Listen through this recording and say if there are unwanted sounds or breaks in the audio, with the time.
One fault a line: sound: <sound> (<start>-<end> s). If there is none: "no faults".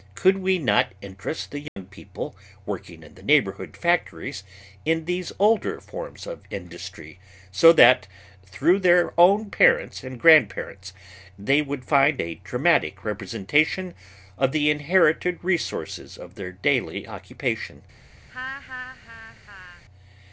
sound: dropout (1.7-1.8 s)
sound: laugh (18.3-19.8 s)